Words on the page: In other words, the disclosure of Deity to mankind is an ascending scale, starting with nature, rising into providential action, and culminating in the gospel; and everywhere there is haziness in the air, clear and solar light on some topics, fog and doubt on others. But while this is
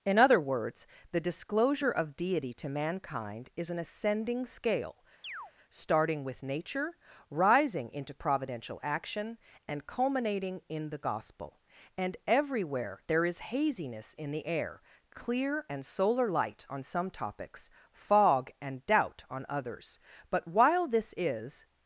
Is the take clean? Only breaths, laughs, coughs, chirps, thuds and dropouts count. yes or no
no